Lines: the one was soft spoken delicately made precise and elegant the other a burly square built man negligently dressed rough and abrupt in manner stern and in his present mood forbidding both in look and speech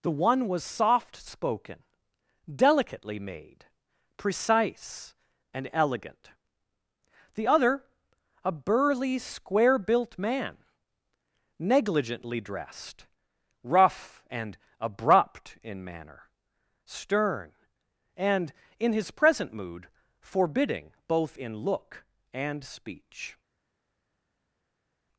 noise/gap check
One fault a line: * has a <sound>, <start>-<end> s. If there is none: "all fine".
all fine